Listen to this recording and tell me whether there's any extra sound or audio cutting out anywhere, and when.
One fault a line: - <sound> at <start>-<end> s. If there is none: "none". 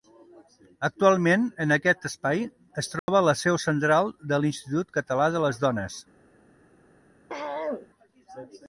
- dropout at 3.0-3.1 s
- throat clearing at 7.3-7.9 s